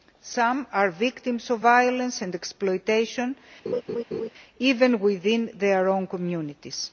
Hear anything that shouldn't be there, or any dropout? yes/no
yes